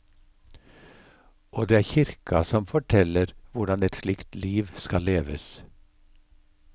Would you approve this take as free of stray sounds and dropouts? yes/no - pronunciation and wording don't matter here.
yes